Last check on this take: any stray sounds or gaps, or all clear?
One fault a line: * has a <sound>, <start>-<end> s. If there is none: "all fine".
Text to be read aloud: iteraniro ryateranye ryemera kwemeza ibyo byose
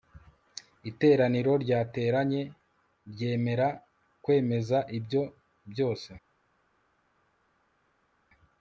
all fine